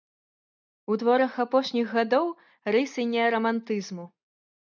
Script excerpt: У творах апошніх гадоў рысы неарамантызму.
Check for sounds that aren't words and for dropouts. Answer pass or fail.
pass